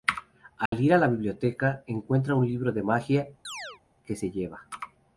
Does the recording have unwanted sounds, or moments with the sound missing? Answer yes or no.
yes